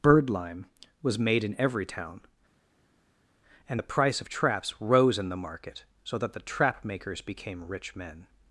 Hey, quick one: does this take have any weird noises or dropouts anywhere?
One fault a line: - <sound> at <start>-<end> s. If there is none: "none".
none